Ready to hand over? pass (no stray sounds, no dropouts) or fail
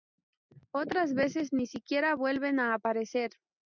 pass